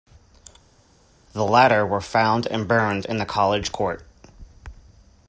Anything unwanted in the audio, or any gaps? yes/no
no